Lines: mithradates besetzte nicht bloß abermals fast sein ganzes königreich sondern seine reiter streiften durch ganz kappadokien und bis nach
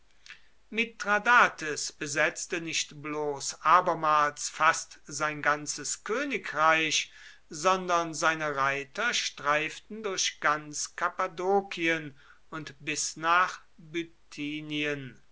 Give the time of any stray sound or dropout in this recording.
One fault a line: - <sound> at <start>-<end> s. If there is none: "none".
none